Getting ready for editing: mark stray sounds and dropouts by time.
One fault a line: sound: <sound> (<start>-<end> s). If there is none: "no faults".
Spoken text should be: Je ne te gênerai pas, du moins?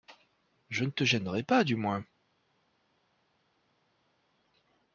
no faults